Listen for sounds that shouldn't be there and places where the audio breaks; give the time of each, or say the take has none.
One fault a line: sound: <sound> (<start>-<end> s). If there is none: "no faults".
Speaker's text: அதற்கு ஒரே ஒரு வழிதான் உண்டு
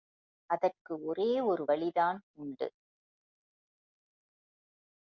no faults